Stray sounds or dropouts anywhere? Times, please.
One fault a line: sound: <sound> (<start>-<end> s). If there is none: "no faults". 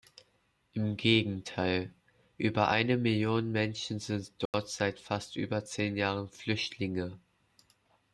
sound: dropout (4.5-4.5 s)